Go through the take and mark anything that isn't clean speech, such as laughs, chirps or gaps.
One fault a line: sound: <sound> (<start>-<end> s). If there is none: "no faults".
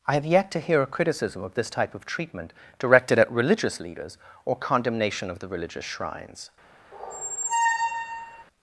sound: squeak (6.9-8.4 s)